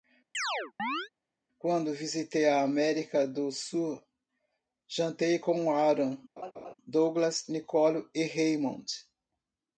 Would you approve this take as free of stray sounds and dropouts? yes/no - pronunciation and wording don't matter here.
no